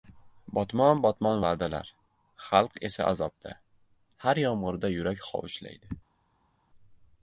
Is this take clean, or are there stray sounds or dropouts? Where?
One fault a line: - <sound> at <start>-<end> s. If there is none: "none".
none